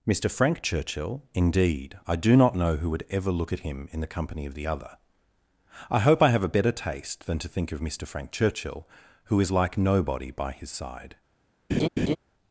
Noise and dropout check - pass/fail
fail